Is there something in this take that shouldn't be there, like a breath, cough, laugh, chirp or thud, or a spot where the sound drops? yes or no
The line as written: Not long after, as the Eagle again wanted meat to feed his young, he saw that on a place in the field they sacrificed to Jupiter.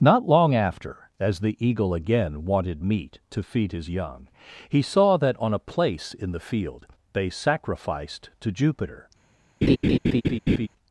yes